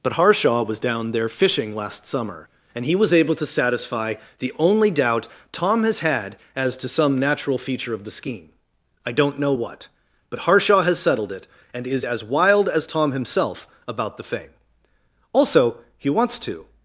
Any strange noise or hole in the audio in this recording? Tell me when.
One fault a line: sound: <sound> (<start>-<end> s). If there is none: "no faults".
no faults